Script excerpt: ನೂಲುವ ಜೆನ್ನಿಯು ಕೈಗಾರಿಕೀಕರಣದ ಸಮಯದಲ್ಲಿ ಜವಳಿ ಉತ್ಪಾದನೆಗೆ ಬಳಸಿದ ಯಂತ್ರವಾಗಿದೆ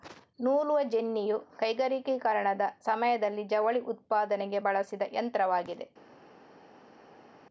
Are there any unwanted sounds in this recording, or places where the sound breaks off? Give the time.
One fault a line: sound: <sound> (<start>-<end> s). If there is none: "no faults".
no faults